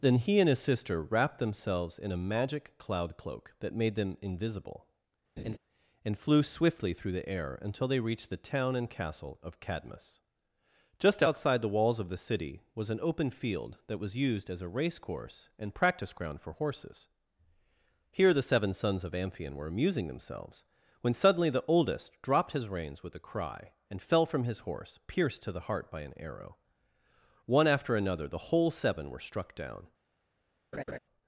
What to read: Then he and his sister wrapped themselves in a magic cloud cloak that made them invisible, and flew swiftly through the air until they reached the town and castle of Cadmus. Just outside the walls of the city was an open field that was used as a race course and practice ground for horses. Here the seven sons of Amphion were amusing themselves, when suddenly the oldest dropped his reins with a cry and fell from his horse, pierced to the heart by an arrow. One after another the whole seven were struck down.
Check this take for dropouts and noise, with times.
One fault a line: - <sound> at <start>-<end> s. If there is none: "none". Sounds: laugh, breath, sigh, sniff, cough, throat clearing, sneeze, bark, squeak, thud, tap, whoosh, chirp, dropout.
- laugh at 5.4-5.6 s
- laugh at 30.7-31.0 s